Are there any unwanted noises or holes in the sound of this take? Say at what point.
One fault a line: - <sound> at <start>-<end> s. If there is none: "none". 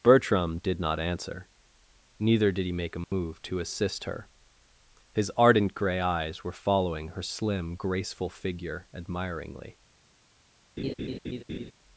- dropout at 3.0-3.1 s
- laugh at 10.8-11.7 s